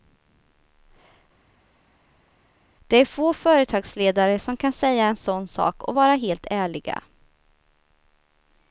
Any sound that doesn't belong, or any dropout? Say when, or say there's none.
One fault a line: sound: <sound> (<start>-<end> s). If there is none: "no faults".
no faults